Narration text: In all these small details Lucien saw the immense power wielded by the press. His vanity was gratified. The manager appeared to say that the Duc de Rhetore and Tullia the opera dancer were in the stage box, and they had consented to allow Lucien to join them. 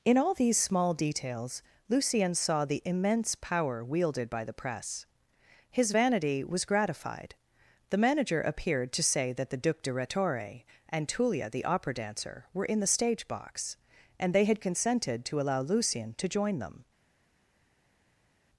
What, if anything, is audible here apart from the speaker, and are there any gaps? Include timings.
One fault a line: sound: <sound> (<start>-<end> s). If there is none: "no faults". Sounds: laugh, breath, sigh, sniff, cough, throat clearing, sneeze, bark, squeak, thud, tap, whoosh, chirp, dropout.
no faults